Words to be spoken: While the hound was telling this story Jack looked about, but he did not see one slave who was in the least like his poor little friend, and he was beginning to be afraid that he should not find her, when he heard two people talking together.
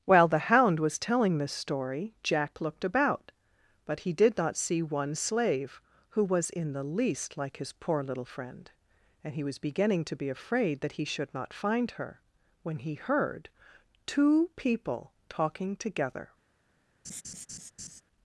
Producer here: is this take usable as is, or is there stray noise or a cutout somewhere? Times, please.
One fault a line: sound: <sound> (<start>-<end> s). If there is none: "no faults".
sound: laugh (17.0-18.0 s)